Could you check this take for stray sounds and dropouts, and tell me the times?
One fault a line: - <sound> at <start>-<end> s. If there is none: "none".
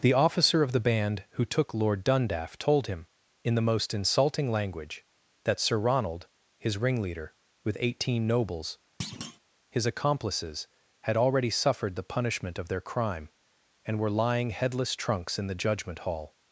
- thud at 9.0-9.4 s